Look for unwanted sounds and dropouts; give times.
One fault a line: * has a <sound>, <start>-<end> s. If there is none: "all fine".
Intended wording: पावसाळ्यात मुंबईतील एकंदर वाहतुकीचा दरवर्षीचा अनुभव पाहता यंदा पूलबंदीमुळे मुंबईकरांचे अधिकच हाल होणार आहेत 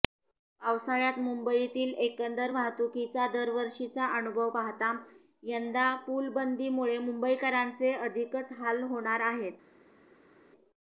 all fine